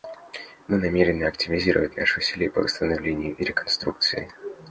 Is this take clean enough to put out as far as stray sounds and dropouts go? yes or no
yes